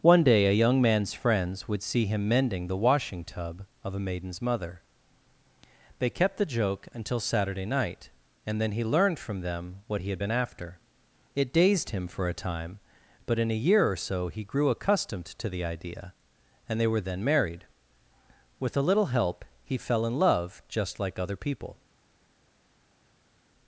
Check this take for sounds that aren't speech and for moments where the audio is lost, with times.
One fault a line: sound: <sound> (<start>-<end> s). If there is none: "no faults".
no faults